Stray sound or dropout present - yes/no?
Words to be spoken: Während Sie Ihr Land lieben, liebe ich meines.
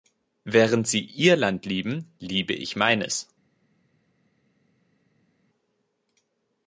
no